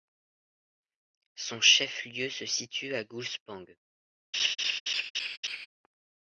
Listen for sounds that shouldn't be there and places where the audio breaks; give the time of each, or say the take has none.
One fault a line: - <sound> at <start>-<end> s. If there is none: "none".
- laugh at 4.3-5.7 s